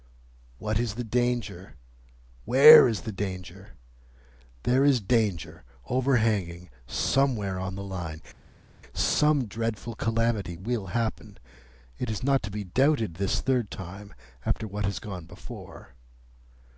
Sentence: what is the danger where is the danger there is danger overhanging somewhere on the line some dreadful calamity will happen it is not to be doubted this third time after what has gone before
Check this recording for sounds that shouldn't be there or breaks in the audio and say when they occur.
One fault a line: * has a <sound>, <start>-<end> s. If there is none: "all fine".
all fine